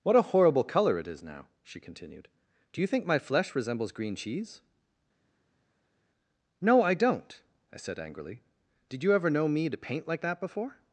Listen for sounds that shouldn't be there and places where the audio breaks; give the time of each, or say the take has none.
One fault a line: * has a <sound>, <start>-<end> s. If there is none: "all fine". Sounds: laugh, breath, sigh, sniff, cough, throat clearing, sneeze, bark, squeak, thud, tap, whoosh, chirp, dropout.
all fine